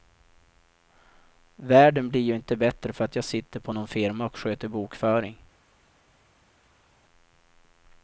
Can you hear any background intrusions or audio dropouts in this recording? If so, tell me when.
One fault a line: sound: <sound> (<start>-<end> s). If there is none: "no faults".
no faults